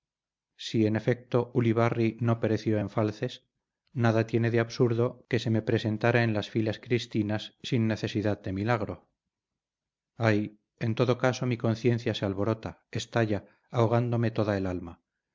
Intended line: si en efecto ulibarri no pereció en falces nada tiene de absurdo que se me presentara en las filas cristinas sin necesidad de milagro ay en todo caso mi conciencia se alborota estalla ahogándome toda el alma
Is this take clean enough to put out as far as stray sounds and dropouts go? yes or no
yes